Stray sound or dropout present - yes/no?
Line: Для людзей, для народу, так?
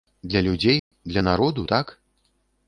yes